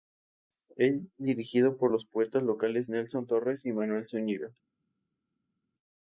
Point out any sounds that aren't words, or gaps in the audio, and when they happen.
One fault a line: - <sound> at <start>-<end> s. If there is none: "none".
none